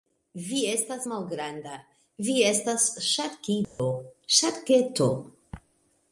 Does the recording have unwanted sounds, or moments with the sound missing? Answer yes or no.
yes